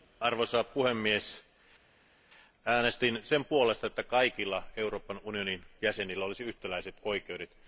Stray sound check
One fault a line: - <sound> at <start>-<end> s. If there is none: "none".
none